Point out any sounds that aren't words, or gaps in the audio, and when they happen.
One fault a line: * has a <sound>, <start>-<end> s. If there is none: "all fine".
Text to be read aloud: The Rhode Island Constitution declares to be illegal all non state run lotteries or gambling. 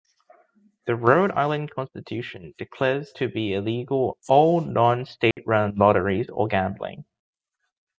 * has a dropout, 5.3-5.4 s